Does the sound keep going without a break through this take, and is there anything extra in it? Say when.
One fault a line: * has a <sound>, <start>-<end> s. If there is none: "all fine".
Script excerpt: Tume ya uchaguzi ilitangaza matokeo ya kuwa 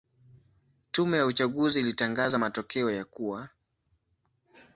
all fine